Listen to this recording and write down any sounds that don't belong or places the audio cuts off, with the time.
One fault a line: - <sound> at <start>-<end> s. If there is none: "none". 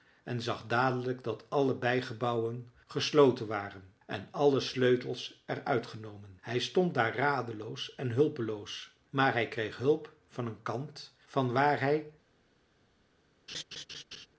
- laugh at 13.5-14.3 s